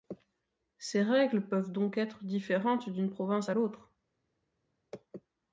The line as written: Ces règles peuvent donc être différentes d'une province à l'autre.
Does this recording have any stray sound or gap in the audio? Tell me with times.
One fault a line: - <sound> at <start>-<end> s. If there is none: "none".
none